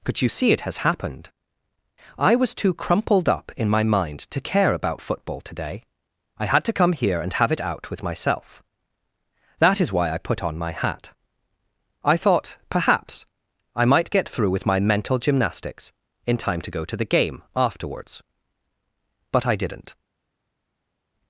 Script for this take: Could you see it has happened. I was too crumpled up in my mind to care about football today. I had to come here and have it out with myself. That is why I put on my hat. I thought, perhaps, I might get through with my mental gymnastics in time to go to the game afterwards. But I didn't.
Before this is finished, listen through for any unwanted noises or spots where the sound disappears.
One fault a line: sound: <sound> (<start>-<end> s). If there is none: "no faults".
no faults